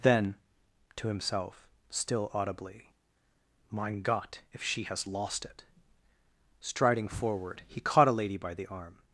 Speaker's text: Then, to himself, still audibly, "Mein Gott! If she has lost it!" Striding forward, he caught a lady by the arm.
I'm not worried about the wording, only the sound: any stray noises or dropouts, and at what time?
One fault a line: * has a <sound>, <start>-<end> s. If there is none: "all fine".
all fine